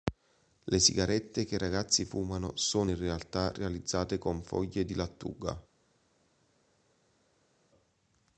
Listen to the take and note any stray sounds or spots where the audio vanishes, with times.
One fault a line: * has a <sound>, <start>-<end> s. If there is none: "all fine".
all fine